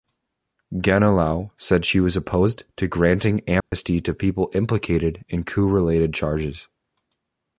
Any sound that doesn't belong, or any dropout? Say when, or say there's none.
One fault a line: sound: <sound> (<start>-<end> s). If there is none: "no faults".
sound: dropout (3.6-3.7 s)